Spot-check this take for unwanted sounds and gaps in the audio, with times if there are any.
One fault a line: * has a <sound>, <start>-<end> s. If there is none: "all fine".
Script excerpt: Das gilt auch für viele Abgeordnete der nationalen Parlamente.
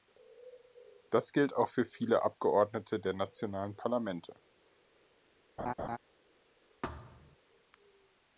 * has a laugh, 5.6-6.0 s
* has a thud, 6.8-7.4 s